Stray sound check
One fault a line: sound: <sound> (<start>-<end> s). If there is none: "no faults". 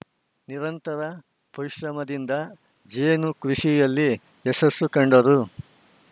no faults